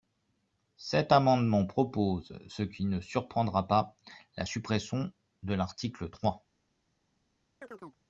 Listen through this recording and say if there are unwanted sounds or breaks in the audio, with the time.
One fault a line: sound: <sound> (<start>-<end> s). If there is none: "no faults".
sound: chirp (7.6-8.0 s)